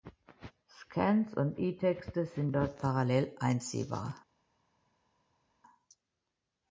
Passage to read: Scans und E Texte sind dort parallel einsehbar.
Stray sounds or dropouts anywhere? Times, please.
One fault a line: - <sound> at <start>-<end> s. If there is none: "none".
none